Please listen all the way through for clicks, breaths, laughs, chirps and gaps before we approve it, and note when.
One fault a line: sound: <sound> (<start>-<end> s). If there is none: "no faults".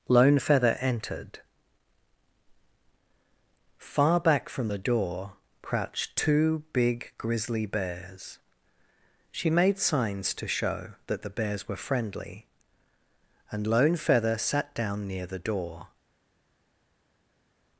no faults